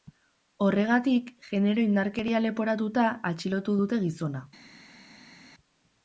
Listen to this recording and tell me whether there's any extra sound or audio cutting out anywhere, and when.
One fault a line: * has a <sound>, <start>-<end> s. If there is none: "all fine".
all fine